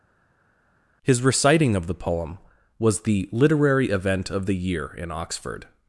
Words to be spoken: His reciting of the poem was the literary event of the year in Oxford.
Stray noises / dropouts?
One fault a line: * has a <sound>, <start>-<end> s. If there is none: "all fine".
all fine